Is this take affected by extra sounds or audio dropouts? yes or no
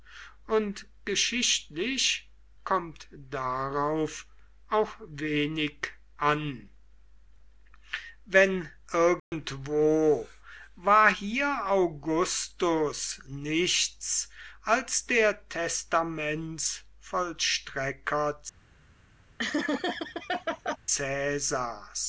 yes